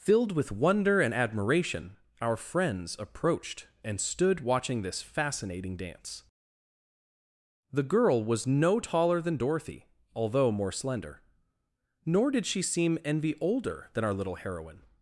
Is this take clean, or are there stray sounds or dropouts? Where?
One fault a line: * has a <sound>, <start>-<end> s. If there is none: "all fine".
all fine